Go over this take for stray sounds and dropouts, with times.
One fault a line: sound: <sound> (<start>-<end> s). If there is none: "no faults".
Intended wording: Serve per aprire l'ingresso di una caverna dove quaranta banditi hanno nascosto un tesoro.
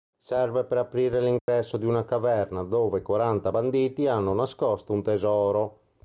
sound: dropout (1.4-1.5 s)